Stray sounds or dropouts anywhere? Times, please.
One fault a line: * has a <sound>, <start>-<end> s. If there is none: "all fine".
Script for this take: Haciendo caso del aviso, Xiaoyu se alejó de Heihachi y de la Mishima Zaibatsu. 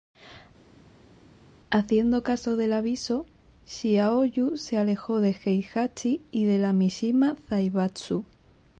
all fine